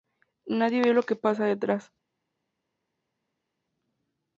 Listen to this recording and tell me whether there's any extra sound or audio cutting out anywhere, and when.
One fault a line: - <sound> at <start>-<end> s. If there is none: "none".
none